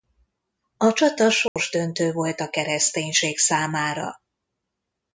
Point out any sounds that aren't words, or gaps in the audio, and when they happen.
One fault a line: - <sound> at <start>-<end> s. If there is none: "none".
- dropout at 1.5-1.6 s